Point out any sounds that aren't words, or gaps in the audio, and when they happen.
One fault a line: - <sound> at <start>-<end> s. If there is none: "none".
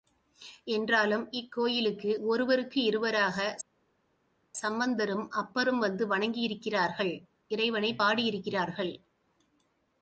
none